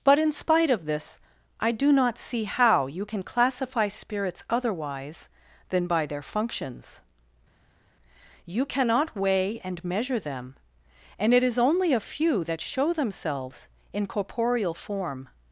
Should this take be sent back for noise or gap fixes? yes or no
no